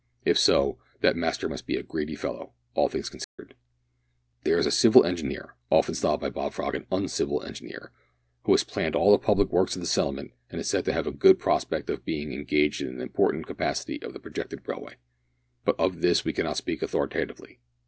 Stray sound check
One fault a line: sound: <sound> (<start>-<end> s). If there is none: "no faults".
sound: dropout (3.2-3.4 s)